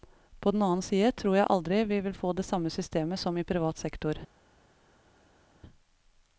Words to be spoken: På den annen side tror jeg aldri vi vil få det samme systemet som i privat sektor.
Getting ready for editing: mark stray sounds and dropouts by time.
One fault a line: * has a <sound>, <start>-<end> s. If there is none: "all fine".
all fine